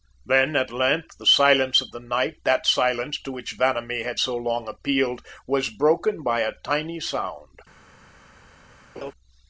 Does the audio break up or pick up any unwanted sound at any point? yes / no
yes